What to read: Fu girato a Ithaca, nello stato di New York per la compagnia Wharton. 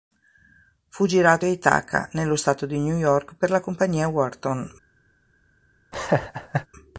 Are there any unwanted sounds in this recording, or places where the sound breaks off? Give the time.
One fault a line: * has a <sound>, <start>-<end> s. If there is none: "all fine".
* has a laugh, 5.9-6.7 s